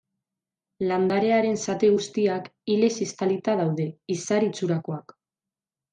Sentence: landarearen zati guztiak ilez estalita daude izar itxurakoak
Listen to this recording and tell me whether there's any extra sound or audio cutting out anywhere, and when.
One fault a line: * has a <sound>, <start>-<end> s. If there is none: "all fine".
all fine